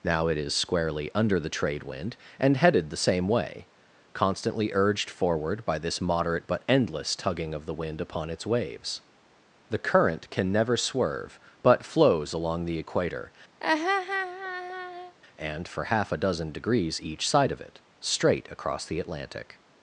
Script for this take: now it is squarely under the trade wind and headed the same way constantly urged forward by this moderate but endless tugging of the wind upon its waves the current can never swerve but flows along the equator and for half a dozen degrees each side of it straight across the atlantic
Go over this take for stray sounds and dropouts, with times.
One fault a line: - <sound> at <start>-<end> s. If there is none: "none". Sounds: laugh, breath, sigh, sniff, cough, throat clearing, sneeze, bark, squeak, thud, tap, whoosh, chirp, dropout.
- laugh at 13.6-15.2 s